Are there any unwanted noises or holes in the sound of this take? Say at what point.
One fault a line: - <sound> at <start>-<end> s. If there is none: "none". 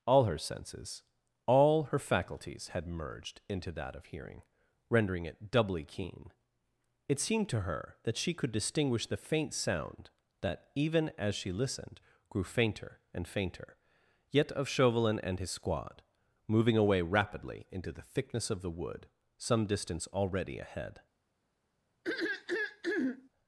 - throat clearing at 22.0-23.3 s